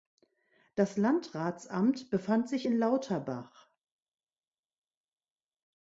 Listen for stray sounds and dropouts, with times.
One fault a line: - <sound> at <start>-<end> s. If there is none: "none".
none